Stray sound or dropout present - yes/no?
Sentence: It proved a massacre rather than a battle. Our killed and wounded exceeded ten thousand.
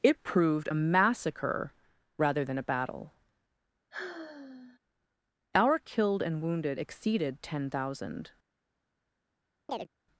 yes